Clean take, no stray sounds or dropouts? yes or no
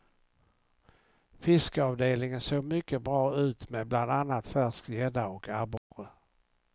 no